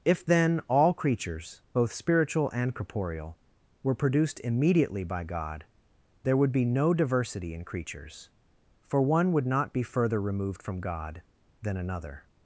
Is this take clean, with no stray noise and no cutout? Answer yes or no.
yes